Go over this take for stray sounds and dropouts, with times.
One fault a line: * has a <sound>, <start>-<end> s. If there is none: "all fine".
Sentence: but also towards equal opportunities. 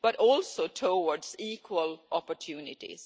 all fine